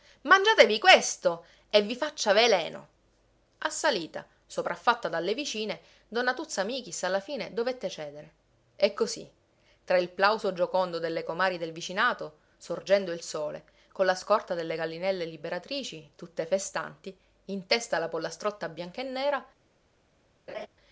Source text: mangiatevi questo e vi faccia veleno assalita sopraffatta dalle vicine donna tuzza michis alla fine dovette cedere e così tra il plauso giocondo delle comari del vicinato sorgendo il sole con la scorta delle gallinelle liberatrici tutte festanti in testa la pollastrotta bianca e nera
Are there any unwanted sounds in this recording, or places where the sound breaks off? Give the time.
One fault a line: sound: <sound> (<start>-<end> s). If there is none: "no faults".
sound: laugh (20.5-20.7 s)